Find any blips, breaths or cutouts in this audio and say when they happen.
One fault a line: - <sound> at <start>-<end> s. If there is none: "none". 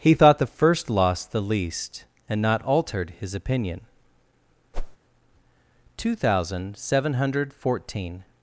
- whoosh at 4.7-5.0 s